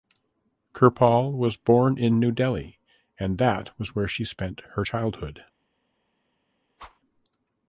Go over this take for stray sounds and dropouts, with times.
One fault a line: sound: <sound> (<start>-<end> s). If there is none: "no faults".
sound: whoosh (6.8-7.0 s)